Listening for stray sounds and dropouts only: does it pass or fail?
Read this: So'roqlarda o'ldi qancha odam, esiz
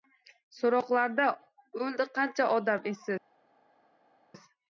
pass